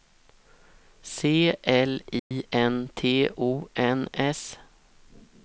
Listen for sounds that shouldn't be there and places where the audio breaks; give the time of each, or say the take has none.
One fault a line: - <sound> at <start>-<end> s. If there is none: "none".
- dropout at 2.2-2.3 s